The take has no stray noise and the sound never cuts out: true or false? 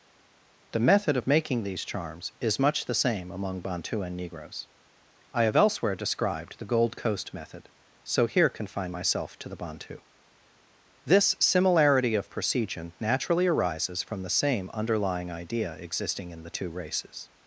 true